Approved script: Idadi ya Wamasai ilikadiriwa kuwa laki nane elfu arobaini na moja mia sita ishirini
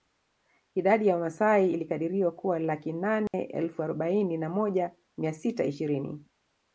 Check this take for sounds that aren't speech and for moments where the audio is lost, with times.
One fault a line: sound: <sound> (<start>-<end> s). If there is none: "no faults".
sound: dropout (3.3-3.3 s)